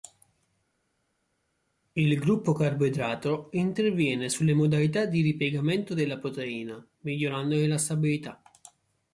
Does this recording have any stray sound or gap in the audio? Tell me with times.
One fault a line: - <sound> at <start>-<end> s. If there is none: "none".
none